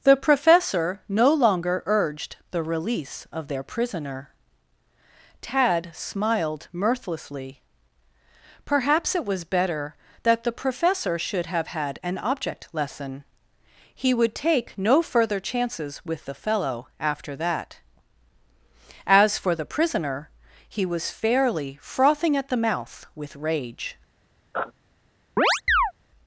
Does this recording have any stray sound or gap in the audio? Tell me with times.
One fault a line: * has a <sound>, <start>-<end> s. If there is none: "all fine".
* has a sniff, 24.5-24.7 s
* has a chirp, 25.4-25.9 s